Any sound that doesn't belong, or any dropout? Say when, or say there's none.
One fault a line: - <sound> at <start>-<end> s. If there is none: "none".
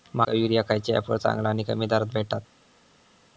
none